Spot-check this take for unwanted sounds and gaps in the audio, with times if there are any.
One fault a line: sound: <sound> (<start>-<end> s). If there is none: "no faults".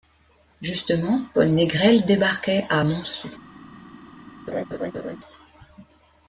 sound: laugh (4.5-5.2 s)